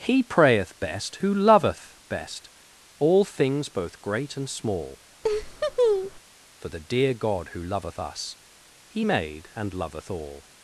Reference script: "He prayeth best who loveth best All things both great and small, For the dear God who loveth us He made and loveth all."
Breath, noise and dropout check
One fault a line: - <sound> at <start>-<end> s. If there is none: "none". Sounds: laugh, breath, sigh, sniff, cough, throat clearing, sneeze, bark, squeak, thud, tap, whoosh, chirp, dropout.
- laugh at 5.2-6.2 s